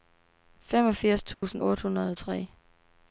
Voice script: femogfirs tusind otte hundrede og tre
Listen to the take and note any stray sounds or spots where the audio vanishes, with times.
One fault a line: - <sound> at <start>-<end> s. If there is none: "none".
- dropout at 1.3-1.4 s